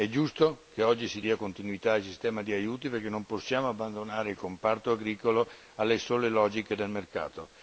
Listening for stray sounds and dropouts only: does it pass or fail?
pass